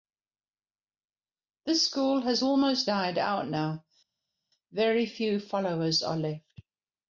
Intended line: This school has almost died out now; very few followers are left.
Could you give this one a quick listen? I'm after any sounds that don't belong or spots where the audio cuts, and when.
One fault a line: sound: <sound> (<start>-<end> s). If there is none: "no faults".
no faults